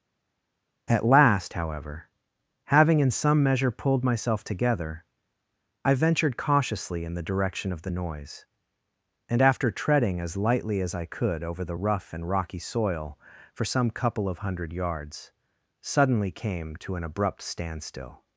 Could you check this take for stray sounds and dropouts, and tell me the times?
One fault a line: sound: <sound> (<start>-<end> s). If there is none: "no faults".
no faults